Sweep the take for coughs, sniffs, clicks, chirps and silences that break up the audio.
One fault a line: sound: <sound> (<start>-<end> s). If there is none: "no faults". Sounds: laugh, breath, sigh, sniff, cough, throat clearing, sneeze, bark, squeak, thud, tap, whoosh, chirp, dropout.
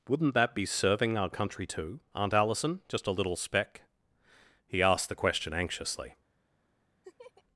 sound: laugh (7.0-7.4 s)